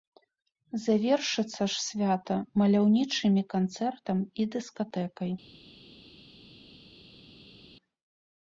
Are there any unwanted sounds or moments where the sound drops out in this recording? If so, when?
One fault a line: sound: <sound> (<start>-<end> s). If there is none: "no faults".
no faults